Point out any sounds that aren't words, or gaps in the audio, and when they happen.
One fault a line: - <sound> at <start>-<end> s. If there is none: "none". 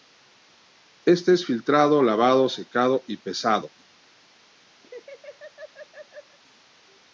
- laugh at 4.8-6.4 s